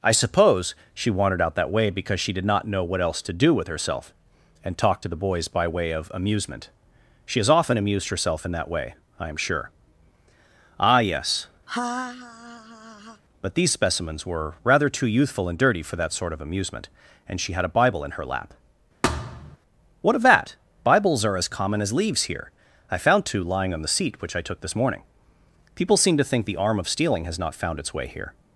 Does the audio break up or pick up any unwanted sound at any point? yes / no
yes